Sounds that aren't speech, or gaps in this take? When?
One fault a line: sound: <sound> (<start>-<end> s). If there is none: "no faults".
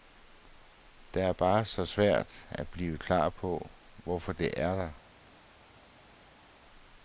no faults